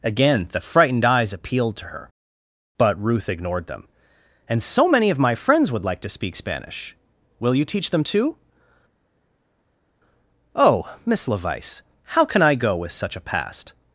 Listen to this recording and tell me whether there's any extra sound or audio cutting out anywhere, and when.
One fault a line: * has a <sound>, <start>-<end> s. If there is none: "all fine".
all fine